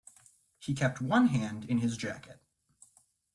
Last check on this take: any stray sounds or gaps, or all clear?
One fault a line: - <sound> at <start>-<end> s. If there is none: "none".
none